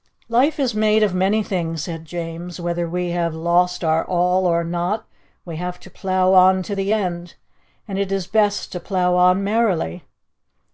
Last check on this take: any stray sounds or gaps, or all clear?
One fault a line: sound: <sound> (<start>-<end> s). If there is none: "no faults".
no faults